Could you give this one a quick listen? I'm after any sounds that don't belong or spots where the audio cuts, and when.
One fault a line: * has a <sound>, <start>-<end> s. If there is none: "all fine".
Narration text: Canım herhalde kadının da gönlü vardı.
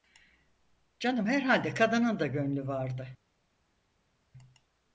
all fine